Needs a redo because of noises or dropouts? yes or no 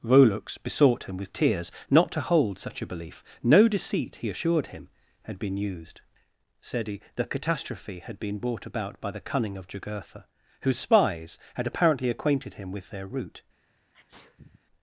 yes